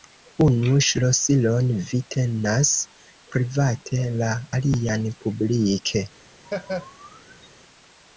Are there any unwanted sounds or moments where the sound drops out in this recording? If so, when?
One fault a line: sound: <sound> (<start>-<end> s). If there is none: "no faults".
sound: laugh (6.4-7.5 s)